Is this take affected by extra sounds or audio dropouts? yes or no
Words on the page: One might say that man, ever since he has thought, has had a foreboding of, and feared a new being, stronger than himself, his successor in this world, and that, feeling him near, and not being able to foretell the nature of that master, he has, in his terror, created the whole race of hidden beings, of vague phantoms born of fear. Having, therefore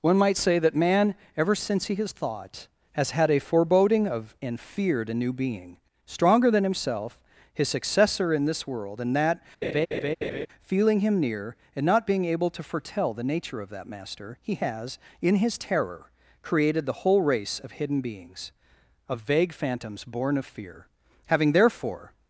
yes